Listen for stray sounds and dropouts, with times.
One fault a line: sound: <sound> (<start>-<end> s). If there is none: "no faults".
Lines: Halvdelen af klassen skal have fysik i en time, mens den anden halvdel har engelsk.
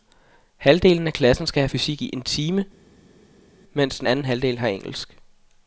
no faults